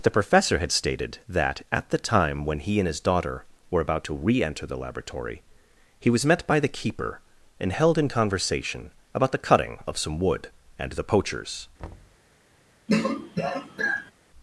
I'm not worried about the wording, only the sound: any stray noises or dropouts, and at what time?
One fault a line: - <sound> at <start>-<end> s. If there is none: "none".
- thud at 11.8-12.2 s
- throat clearing at 12.9-14.1 s